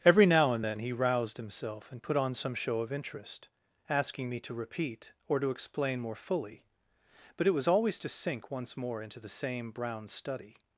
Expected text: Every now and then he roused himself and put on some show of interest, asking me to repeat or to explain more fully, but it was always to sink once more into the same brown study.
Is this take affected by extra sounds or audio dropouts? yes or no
no